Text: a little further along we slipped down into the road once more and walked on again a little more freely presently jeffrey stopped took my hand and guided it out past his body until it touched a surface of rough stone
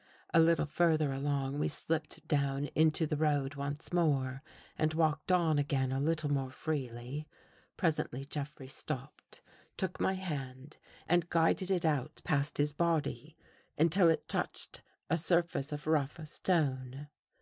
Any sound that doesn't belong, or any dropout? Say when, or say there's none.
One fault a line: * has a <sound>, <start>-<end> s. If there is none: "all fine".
all fine